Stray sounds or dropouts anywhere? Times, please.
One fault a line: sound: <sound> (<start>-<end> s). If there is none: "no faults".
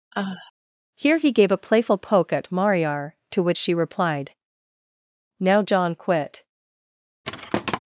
sound: sigh (0.1-0.5 s)
sound: thud (7.2-7.8 s)